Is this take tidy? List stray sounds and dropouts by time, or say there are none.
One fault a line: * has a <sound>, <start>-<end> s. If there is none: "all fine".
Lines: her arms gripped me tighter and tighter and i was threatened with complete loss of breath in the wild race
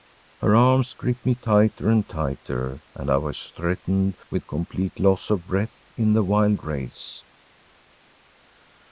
all fine